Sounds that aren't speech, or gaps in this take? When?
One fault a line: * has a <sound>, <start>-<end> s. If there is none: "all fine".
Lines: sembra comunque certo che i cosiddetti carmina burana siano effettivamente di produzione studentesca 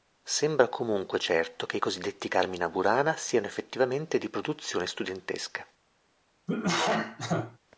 * has a cough, 6.5-7.6 s